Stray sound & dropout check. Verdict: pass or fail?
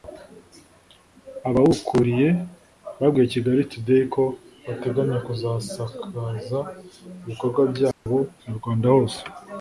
fail